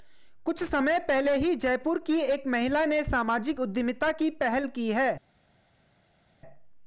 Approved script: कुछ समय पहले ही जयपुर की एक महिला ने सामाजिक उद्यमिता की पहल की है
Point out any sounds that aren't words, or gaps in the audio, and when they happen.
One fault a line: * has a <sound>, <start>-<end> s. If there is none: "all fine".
all fine